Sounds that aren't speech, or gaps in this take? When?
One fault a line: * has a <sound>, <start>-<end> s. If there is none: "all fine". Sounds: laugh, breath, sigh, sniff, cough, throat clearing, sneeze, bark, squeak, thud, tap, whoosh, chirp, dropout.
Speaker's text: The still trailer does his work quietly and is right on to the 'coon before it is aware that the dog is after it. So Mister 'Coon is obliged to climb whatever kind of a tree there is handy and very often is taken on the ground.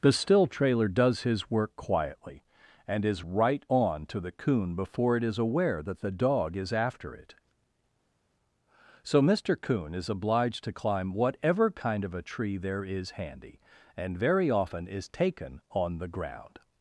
all fine